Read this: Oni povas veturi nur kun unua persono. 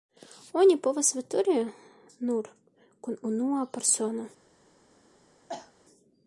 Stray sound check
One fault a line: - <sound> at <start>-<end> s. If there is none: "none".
- cough at 5.5-5.7 s